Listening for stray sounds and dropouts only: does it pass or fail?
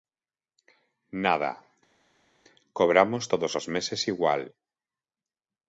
pass